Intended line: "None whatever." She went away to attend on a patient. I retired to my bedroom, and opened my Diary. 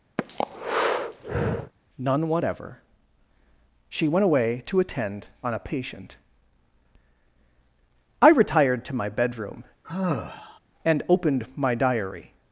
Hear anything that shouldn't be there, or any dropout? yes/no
yes